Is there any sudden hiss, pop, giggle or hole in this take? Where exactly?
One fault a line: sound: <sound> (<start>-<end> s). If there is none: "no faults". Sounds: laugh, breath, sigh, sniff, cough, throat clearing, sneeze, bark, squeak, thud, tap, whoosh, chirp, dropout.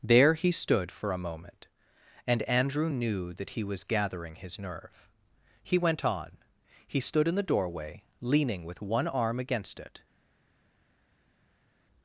no faults